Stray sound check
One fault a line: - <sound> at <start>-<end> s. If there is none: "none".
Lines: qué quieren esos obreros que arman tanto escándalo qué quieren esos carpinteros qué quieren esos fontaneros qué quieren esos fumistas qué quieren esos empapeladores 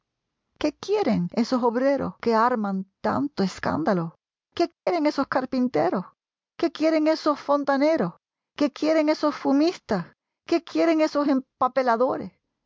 - dropout at 4.7-4.9 s